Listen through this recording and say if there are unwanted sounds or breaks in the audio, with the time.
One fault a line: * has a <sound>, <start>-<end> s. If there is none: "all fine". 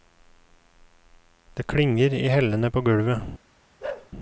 * has a bark, 3.8-4.1 s